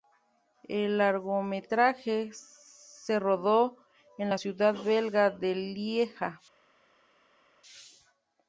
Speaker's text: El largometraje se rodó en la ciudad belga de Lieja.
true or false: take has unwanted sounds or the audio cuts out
false